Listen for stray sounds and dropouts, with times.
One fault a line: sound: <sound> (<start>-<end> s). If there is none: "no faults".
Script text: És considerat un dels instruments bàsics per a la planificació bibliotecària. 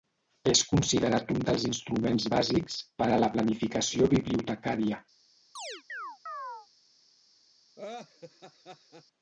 sound: chirp (5.6-6.7 s)
sound: laugh (7.8-9.0 s)